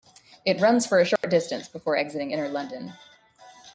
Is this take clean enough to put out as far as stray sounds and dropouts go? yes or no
no